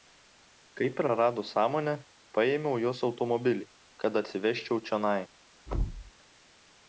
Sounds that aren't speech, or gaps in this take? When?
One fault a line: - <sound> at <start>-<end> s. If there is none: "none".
- thud at 5.7-6.1 s